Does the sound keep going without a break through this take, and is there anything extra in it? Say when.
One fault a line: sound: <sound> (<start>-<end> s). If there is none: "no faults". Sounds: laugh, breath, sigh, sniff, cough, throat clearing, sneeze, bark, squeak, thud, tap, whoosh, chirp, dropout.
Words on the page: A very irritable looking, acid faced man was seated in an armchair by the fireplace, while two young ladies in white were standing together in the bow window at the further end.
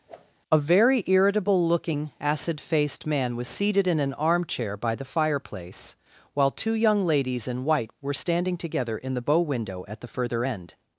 sound: whoosh (0.1-0.3 s)